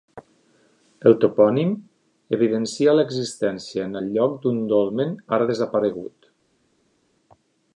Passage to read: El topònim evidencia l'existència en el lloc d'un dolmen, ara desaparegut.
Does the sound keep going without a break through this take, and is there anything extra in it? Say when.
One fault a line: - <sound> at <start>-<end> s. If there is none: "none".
none